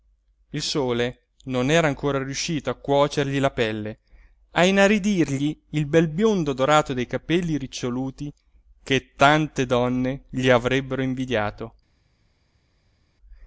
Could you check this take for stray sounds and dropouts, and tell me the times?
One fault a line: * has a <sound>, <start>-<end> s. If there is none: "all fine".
all fine